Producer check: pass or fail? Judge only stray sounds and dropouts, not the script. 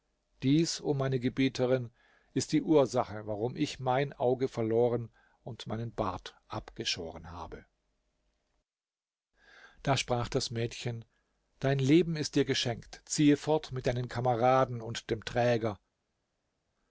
pass